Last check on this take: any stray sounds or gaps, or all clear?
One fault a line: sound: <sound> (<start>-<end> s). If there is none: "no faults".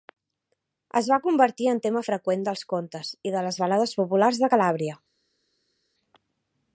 no faults